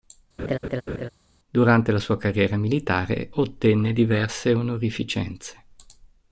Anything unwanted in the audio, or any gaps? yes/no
yes